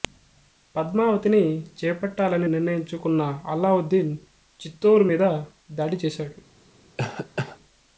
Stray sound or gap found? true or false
true